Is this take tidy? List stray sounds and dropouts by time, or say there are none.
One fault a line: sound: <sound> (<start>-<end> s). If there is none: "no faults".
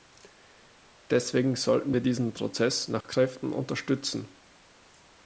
sound: dropout (3.0-3.0 s)